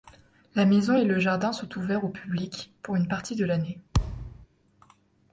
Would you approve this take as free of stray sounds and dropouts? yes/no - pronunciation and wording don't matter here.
no